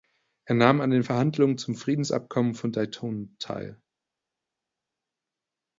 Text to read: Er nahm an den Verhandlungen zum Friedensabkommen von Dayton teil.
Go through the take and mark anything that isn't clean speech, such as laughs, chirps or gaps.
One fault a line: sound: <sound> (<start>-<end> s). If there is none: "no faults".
no faults